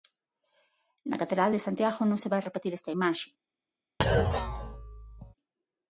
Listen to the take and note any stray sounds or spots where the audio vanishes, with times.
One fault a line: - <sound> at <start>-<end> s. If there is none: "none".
- thud at 4.0-5.3 s